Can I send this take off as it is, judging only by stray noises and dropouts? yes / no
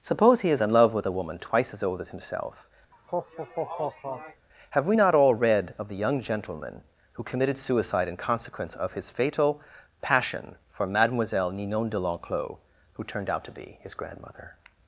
no